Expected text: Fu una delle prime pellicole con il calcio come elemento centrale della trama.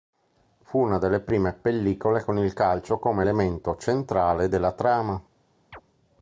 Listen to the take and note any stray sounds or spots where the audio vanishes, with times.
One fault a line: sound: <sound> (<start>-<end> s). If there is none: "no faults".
sound: chirp (5.7-5.8 s)